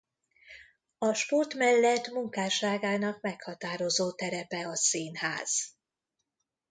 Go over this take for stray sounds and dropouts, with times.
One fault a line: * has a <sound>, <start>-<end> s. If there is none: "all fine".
all fine